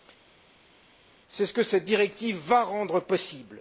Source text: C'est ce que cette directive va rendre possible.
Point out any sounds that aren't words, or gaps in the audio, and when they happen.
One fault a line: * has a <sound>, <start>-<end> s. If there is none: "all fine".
all fine